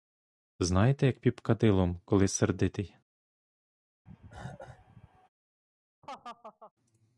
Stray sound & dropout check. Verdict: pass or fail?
fail